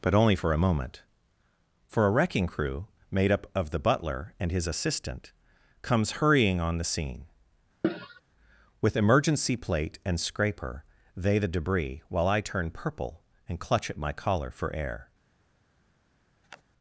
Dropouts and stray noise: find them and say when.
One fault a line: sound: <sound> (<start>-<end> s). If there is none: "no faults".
sound: cough (7.8-8.2 s)
sound: sniff (16.4-16.6 s)